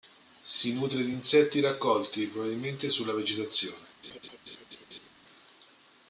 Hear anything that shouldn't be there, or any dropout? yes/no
yes